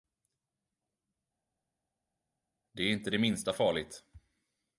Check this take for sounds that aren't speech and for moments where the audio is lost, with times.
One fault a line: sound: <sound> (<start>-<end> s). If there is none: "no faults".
no faults